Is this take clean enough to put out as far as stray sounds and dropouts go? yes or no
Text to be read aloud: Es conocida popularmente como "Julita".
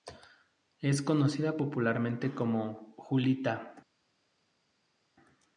yes